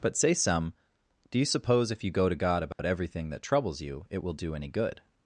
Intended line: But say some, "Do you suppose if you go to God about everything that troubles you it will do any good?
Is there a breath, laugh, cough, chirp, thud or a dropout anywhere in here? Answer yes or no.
yes